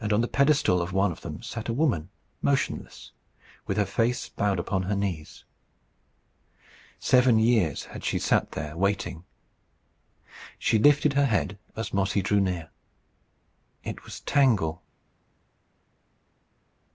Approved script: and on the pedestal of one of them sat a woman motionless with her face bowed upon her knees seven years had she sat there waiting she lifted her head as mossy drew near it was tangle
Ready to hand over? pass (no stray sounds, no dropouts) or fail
pass